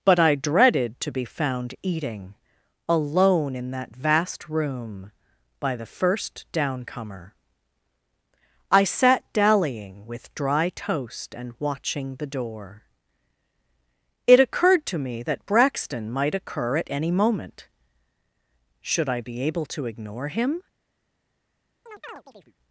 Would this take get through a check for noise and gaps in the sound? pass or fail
fail